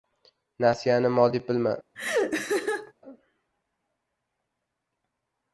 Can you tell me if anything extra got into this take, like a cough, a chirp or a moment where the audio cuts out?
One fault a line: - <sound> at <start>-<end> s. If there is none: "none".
- laugh at 1.9-2.9 s